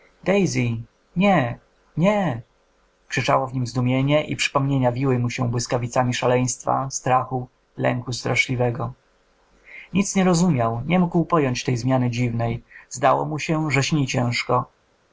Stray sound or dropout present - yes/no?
no